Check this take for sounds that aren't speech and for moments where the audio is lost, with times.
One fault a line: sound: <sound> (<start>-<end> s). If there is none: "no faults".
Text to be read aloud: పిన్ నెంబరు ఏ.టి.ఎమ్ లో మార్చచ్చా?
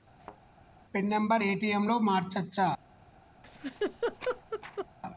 sound: thud (0.2-0.4 s)
sound: laugh (3.4-4.9 s)